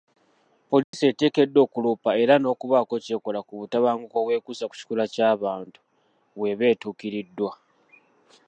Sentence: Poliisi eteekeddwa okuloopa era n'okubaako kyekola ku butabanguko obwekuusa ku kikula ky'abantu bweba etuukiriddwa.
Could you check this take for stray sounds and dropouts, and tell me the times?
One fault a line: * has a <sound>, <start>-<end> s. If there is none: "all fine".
* has a dropout, 0.8-0.9 s